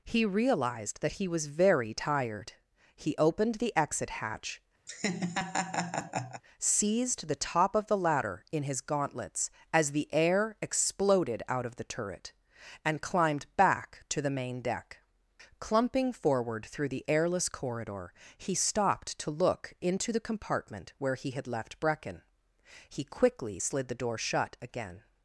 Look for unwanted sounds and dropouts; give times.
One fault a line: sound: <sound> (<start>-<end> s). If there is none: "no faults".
sound: laugh (4.9-6.4 s)